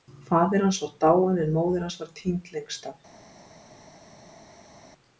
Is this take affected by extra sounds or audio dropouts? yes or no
no